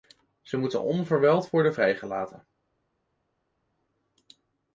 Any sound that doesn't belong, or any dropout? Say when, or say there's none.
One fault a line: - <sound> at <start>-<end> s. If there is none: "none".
none